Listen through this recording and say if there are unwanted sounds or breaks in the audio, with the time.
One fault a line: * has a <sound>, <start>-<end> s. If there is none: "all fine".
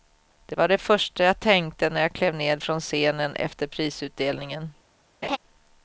* has a laugh, 5.2-5.4 s